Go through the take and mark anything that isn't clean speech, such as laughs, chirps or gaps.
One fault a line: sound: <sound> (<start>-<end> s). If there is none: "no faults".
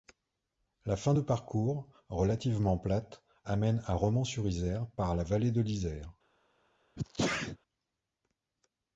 sound: sneeze (7.0-7.6 s)